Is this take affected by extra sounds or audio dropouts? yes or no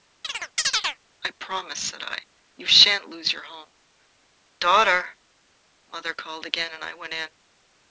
yes